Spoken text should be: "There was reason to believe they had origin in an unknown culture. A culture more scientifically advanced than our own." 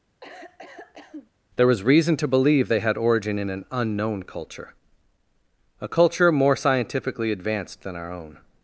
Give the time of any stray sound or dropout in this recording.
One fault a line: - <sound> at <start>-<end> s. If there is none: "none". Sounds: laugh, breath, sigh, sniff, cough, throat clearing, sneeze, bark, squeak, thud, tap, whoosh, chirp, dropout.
- cough at 0.2-1.3 s